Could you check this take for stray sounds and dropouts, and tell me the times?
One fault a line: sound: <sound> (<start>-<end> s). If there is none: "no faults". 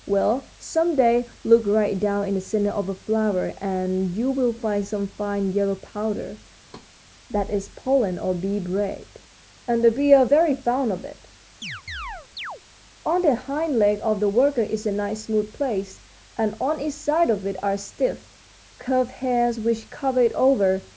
sound: thud (6.7-6.9 s)
sound: chirp (11.6-12.6 s)